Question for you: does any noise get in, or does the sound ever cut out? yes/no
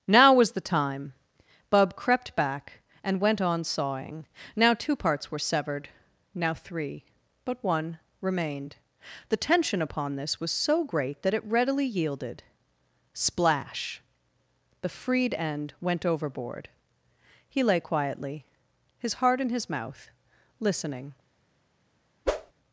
yes